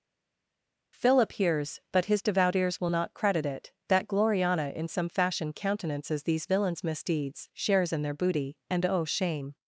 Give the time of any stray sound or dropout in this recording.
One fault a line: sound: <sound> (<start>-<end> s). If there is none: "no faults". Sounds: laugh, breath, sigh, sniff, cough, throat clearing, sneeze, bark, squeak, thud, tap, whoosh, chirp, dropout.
no faults